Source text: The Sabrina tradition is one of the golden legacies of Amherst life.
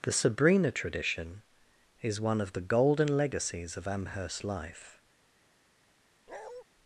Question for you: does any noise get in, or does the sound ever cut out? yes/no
yes